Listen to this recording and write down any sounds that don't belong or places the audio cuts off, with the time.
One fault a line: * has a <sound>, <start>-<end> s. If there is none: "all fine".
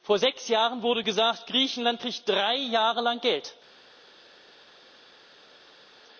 all fine